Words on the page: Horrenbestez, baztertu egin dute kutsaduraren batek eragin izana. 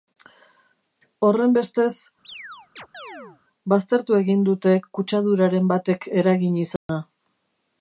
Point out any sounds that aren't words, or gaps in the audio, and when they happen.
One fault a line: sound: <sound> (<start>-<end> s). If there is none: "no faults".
sound: chirp (2.2-3.4 s)
sound: dropout (6.8-6.9 s)